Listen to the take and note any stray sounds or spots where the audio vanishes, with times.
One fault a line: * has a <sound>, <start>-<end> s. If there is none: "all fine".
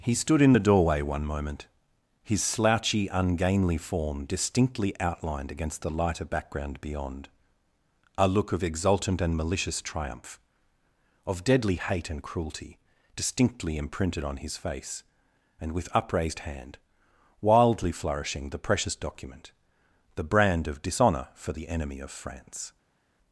all fine